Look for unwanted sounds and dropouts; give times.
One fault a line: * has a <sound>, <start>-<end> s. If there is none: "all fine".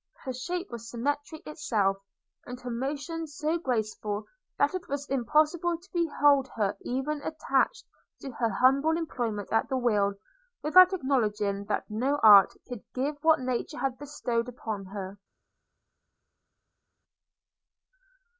all fine